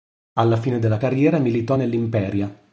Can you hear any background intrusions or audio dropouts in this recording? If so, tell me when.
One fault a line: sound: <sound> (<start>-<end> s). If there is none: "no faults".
no faults